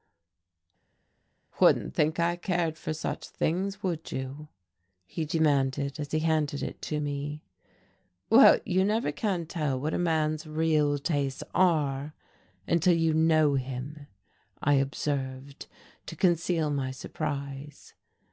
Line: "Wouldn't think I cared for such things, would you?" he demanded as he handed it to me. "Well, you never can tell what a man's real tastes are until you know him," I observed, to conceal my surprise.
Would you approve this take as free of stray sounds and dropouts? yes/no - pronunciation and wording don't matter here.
yes